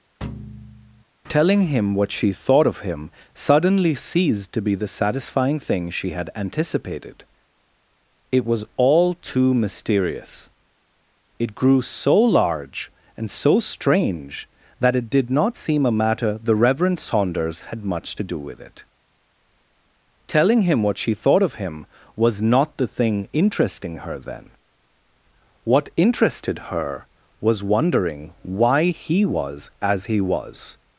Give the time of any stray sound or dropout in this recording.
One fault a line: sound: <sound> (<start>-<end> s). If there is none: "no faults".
sound: thud (0.2-1.0 s)